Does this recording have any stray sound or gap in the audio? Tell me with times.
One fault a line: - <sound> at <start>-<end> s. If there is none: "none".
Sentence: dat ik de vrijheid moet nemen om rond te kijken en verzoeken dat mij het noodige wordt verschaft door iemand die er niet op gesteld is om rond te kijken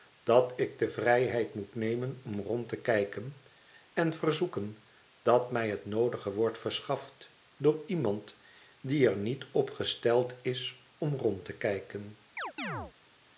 - chirp at 12.4-12.9 s